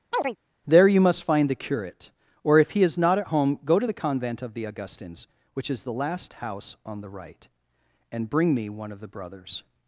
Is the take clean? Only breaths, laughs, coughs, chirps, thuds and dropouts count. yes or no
no